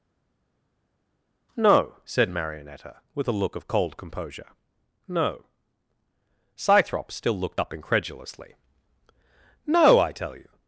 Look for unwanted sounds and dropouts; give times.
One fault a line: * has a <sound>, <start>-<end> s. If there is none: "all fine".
all fine